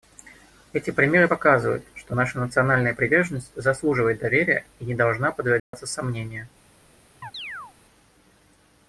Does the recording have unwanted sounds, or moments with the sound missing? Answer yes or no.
yes